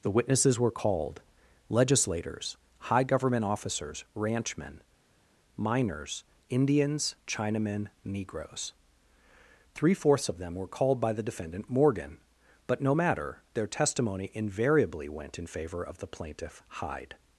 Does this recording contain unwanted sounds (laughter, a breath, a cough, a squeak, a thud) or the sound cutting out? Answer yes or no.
no